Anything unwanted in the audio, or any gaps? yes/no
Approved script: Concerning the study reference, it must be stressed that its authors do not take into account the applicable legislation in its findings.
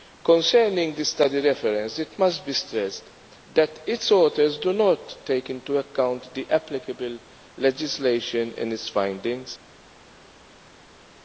no